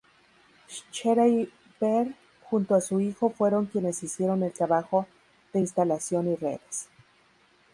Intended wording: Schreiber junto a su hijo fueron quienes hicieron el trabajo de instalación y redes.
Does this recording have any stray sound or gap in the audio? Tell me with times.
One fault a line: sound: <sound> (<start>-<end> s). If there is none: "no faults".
no faults